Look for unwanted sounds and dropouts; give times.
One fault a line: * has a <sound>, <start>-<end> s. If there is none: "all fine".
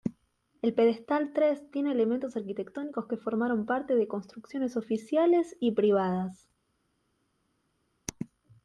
all fine